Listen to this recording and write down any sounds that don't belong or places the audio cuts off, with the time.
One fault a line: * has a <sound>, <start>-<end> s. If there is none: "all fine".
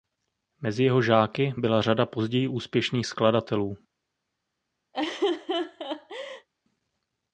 * has a laugh, 4.9-6.5 s